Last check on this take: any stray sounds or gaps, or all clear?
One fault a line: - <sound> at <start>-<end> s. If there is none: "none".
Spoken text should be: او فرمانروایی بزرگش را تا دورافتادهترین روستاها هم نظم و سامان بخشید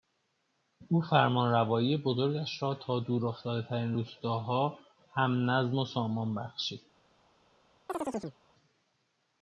- chirp at 7.9-8.4 s